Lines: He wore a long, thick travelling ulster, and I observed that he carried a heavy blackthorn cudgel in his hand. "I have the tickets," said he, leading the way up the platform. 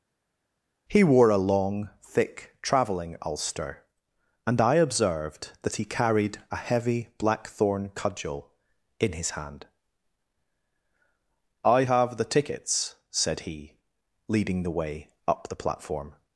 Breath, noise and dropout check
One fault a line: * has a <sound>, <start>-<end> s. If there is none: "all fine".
all fine